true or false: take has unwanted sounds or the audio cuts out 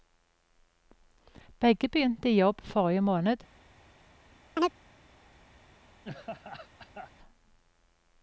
true